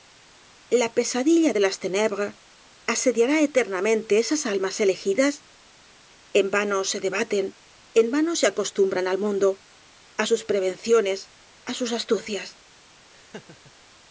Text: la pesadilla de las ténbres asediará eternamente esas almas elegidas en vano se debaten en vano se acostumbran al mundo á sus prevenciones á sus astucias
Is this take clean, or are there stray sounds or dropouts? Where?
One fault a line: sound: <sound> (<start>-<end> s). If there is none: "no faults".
sound: laugh (13.1-13.7 s)